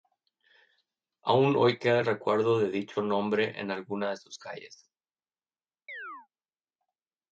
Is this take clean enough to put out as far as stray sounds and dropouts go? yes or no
no